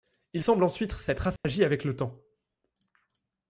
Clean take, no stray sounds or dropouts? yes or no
no